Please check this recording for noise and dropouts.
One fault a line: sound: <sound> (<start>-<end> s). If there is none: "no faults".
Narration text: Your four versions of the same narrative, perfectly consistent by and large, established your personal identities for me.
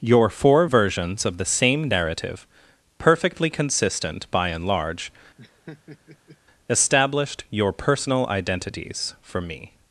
sound: laugh (5.4-6.4 s)